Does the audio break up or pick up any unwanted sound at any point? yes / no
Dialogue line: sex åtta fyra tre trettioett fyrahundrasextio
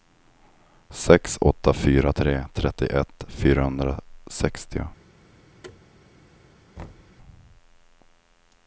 yes